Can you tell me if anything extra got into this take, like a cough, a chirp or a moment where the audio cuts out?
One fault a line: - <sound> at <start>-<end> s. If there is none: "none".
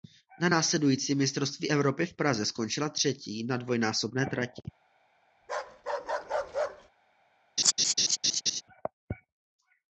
- bark at 5.4-6.9 s
- laugh at 7.6-8.6 s